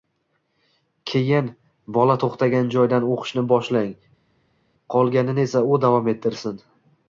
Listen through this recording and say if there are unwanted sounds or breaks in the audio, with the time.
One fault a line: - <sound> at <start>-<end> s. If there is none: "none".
none